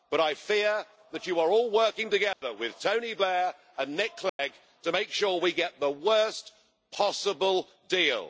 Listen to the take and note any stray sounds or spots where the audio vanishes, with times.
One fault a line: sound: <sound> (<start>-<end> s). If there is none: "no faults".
sound: dropout (2.3-2.4 s)
sound: dropout (4.3-4.4 s)